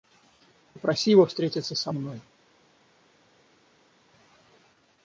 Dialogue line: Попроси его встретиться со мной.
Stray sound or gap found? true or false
false